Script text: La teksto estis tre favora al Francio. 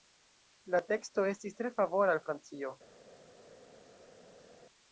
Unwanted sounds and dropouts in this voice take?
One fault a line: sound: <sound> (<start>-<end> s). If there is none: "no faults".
no faults